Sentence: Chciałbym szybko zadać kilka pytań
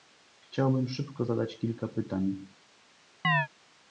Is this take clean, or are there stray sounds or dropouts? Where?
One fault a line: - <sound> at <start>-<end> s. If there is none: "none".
- chirp at 3.2-3.5 s